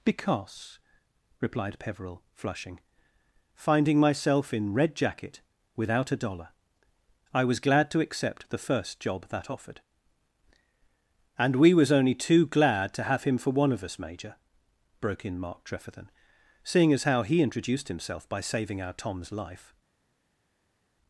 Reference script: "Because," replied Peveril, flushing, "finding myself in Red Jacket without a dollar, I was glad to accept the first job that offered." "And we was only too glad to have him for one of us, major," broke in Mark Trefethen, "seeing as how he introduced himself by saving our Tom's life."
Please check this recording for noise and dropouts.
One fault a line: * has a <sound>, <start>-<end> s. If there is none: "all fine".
all fine